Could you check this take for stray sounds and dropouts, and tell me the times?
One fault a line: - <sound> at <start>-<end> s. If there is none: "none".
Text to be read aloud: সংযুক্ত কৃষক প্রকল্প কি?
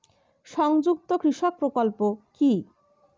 none